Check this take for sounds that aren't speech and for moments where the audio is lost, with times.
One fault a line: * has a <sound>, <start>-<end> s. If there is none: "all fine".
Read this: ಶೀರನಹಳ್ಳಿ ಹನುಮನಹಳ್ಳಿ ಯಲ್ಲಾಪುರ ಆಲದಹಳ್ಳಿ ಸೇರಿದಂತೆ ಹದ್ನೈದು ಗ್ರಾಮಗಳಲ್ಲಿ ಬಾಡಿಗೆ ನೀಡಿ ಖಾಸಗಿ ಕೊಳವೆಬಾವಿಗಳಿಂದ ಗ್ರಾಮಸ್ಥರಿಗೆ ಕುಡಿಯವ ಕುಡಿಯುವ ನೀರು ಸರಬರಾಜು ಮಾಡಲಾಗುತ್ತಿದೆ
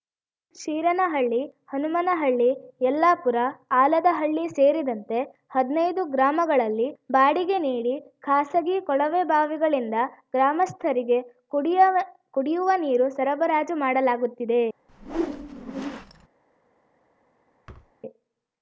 * has a whoosh, 14.9-16.3 s
* has a thud, 17.7-17.9 s